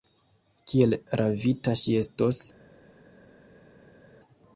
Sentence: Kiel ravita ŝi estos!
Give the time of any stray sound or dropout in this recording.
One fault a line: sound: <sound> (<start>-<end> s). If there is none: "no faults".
no faults